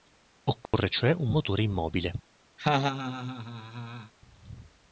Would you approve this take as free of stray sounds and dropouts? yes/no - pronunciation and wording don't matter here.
no